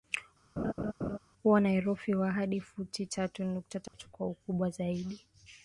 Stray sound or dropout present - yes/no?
yes